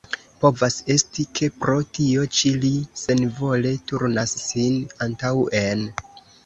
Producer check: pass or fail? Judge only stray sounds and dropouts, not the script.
pass